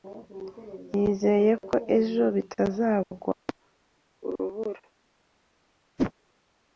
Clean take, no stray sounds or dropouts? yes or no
no